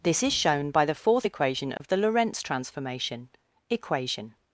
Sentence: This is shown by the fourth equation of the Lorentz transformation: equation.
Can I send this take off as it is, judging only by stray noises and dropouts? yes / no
no